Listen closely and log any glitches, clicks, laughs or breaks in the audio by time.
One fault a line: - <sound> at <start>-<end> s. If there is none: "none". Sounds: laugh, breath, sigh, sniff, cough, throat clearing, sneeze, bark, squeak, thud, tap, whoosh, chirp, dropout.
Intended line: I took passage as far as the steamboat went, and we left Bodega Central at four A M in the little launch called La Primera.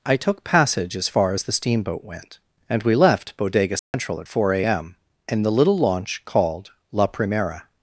- dropout at 3.8-3.9 s